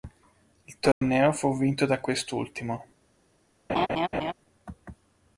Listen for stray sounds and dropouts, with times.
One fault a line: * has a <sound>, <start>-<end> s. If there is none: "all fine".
* has a dropout, 0.9-1.0 s
* has a laugh, 3.7-4.3 s